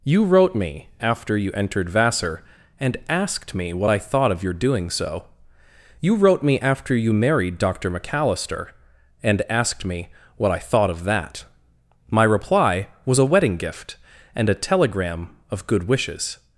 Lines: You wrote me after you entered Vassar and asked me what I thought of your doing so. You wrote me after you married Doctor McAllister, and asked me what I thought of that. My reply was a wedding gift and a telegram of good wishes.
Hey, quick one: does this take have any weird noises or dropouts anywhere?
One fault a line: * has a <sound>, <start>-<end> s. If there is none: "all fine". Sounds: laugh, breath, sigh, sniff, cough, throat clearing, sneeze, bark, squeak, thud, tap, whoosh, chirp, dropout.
all fine